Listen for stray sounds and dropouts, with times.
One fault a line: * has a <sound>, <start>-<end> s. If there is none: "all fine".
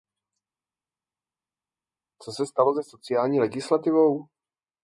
all fine